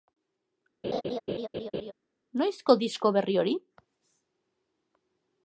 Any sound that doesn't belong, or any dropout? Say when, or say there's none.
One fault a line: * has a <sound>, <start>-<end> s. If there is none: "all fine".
* has a laugh, 0.8-1.9 s